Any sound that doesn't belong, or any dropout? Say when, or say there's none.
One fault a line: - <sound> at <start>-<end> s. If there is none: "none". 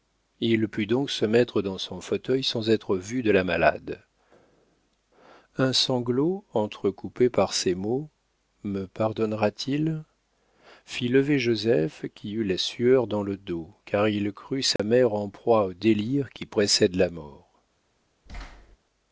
- dropout at 14.8-14.8 s
- thud at 18.3-18.8 s